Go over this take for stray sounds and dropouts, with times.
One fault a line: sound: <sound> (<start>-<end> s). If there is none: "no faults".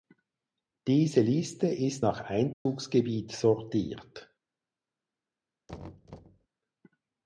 sound: dropout (2.5-2.7 s)
sound: thud (5.7-6.5 s)